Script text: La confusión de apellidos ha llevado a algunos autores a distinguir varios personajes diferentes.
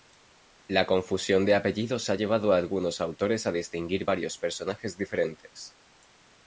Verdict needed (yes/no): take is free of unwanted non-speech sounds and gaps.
yes